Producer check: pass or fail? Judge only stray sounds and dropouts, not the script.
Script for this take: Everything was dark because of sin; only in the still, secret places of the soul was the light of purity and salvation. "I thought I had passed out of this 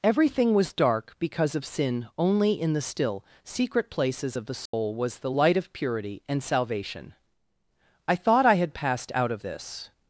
fail